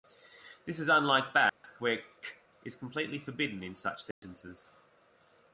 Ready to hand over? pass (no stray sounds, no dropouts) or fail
fail